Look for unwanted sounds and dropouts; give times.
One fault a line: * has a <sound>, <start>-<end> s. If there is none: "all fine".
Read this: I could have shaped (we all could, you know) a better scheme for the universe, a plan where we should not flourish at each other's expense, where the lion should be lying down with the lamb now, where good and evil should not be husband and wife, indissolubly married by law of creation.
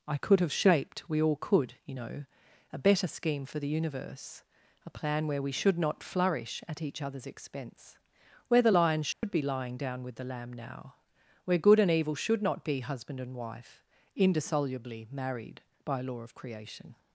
* has a dropout, 9.1-9.2 s